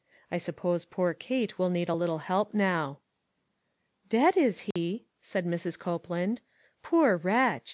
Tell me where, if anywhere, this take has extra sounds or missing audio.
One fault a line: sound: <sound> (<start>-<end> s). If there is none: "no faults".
sound: dropout (4.7-4.8 s)